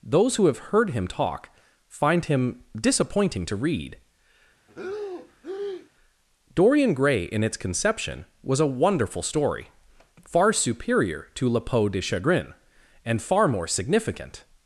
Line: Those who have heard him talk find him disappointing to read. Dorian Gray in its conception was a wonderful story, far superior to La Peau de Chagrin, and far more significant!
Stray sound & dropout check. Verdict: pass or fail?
fail